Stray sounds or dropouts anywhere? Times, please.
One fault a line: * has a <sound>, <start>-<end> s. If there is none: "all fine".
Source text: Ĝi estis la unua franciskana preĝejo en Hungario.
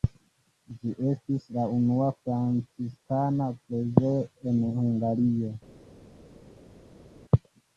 all fine